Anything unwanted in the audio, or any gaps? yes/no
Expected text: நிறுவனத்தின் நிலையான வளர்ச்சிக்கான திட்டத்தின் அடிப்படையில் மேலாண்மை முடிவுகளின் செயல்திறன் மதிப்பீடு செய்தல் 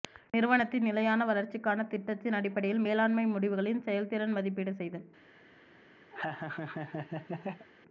yes